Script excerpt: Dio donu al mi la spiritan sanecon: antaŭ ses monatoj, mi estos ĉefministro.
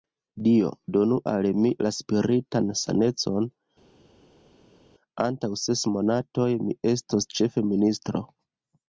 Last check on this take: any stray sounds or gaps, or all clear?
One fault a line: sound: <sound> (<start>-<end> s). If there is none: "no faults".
no faults